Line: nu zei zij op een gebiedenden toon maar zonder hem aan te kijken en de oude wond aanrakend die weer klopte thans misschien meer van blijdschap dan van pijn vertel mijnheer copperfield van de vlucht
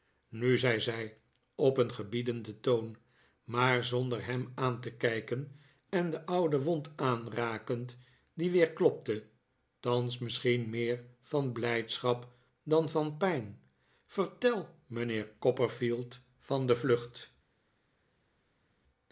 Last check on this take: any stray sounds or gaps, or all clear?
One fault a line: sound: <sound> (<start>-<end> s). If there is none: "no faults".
no faults